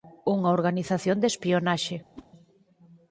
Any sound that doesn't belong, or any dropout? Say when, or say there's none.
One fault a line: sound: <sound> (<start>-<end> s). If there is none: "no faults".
sound: whoosh (2.2-2.3 s)